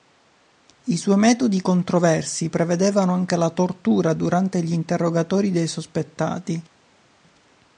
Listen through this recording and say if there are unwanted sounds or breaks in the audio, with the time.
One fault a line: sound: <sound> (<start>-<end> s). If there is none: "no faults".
no faults